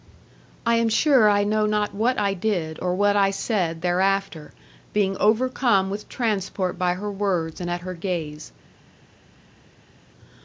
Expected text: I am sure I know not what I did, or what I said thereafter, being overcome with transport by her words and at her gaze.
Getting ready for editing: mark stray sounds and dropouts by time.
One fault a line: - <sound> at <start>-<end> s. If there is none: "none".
none